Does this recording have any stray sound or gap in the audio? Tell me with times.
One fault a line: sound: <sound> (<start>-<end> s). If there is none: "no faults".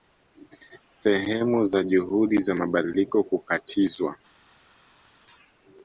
no faults